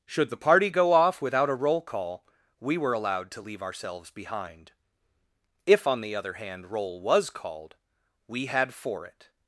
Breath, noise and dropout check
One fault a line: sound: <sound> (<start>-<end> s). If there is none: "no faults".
no faults